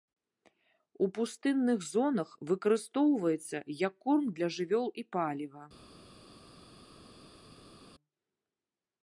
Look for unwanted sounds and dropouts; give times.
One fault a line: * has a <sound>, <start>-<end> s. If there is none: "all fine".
all fine